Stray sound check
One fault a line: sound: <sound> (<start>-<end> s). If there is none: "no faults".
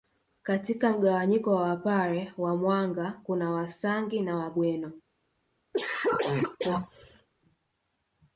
sound: cough (5.7-7.3 s)